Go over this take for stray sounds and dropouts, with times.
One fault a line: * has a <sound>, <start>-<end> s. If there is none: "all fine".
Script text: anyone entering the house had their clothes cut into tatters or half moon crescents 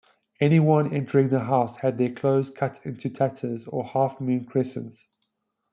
all fine